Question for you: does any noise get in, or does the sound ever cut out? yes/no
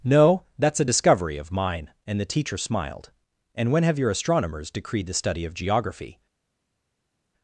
no